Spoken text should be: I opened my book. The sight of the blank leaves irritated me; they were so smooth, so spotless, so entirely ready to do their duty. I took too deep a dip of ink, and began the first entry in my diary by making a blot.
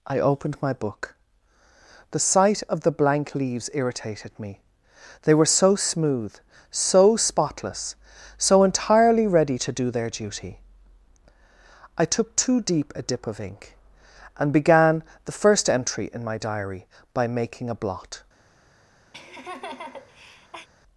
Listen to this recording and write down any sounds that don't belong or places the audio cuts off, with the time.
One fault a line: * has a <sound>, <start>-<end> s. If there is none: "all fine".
* has a laugh, 19.1-20.7 s